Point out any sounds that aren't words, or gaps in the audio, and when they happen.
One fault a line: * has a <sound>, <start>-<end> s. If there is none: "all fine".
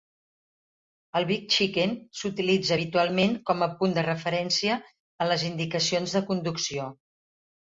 all fine